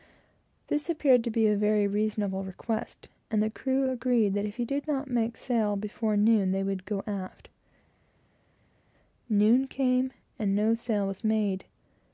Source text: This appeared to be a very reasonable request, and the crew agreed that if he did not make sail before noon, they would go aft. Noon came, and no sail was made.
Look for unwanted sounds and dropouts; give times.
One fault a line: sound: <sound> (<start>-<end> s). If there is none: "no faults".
no faults